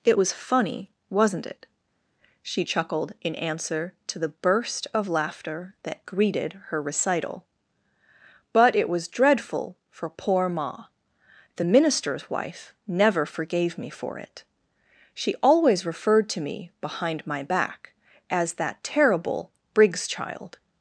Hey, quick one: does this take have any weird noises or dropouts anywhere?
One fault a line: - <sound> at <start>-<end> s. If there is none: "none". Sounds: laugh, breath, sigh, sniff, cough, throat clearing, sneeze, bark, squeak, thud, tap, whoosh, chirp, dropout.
none